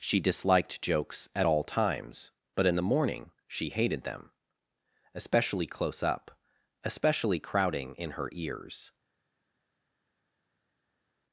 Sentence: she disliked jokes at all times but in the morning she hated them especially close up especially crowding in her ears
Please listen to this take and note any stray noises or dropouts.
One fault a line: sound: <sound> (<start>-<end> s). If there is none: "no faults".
no faults